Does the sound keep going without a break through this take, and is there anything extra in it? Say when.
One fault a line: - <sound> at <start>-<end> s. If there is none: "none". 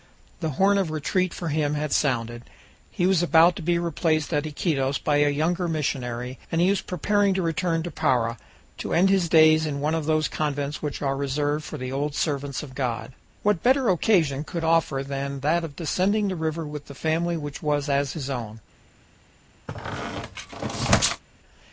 - squeak at 19.7-21.2 s